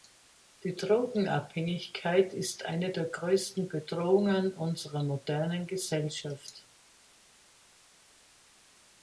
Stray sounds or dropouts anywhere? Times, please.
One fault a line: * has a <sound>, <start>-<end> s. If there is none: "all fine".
all fine